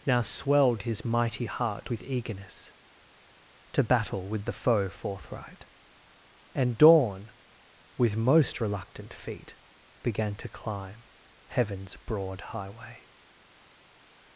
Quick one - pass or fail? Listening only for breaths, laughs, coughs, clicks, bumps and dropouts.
pass